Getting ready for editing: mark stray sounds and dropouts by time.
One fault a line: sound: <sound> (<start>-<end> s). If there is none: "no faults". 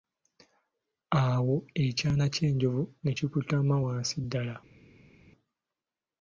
no faults